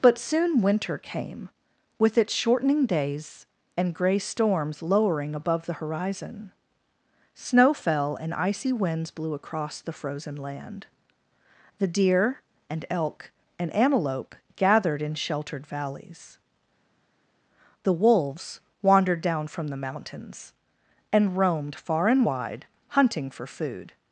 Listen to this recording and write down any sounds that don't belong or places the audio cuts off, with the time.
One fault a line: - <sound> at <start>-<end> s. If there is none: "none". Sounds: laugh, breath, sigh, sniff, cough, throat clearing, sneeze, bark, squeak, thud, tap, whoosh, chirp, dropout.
none